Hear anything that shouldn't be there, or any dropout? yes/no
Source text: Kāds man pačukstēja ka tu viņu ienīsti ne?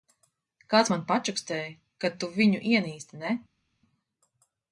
no